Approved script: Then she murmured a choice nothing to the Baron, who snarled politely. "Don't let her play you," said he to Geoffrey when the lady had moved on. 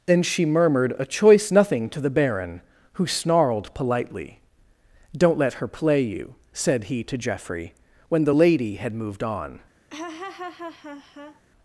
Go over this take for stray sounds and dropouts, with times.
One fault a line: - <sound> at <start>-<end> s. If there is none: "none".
- laugh at 9.9-11.4 s